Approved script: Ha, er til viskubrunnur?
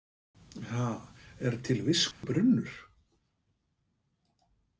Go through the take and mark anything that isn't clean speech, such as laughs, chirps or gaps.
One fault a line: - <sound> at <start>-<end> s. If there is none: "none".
- dropout at 2.1-2.2 s